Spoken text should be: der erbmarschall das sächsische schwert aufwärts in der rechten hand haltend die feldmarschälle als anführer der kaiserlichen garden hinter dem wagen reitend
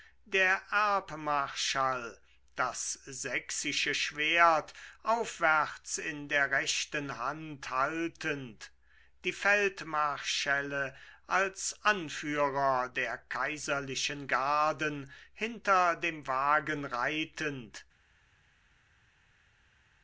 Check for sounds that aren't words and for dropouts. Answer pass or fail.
pass